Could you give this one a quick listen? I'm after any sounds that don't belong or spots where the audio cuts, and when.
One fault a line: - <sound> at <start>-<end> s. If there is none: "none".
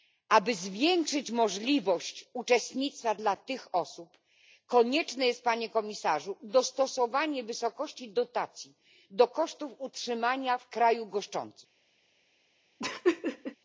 - laugh at 12.8-13.6 s